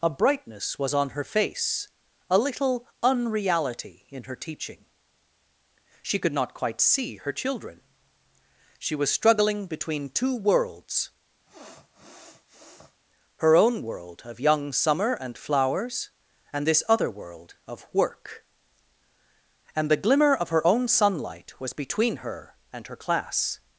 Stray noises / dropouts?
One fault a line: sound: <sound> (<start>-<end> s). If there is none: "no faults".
sound: sniff (11.4-13.0 s)